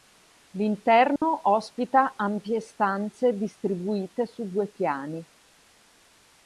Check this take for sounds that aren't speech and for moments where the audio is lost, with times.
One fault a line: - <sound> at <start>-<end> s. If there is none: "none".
- dropout at 1.2-1.2 s